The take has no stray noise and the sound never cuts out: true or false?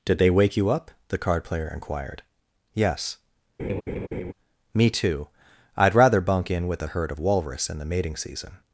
false